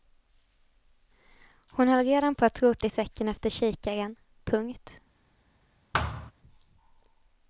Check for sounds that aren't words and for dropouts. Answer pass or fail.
fail